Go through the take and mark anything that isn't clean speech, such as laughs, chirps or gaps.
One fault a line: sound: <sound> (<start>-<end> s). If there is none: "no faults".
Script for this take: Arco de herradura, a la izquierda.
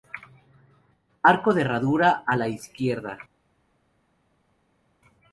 no faults